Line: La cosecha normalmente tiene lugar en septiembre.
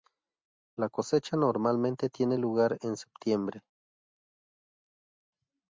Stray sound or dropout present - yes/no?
no